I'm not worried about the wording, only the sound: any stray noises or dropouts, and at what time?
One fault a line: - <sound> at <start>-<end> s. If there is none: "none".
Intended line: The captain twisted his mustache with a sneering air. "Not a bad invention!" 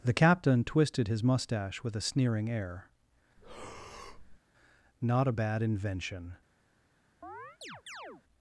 - breath at 3.4-4.4 s
- chirp at 7.2-8.2 s